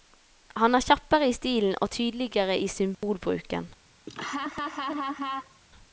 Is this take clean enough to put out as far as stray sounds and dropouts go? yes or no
no